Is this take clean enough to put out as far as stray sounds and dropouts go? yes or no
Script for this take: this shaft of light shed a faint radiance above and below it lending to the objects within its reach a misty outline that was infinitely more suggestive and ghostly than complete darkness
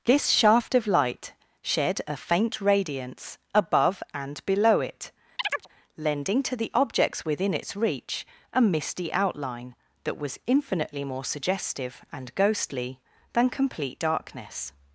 no